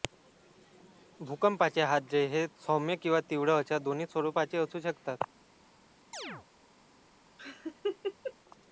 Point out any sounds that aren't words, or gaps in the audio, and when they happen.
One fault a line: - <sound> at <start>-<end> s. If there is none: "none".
- chirp at 6.1-6.5 s
- laugh at 7.4-8.3 s